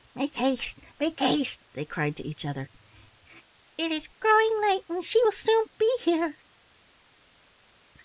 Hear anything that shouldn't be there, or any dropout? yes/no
no